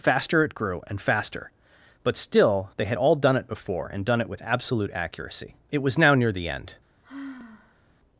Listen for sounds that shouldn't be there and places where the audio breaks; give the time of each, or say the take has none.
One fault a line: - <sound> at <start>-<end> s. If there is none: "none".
- sigh at 7.0-7.9 s